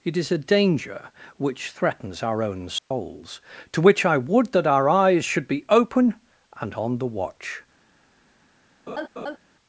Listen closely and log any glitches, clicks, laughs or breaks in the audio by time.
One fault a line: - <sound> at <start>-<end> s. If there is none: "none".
- dropout at 2.8-2.9 s
- laugh at 8.9-9.4 s